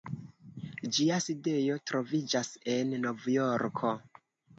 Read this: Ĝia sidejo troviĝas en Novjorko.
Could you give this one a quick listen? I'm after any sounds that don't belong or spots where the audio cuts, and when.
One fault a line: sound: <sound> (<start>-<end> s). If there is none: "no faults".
no faults